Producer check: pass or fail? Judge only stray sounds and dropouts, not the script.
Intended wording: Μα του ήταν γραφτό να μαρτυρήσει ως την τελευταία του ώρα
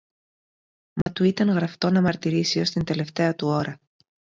fail